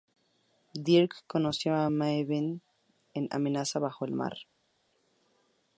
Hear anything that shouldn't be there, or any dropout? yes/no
no